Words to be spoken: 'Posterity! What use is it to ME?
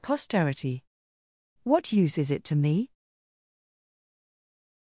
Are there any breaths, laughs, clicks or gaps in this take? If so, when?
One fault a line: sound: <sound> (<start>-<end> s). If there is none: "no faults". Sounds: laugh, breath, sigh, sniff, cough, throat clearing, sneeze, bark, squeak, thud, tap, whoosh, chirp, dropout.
no faults